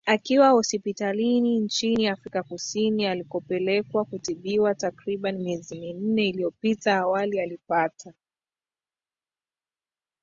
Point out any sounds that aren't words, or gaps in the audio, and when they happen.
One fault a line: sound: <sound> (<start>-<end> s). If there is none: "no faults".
no faults